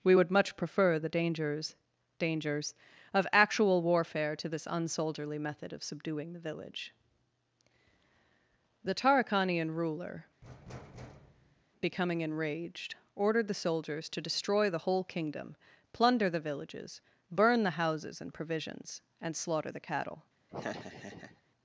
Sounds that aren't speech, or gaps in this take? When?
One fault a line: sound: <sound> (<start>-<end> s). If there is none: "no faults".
sound: thud (10.4-11.6 s)
sound: laugh (20.5-21.4 s)